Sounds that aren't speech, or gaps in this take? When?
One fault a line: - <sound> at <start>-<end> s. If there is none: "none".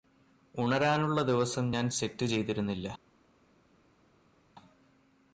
none